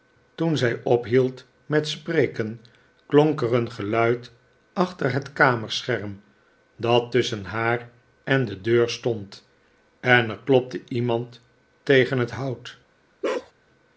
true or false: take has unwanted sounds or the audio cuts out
true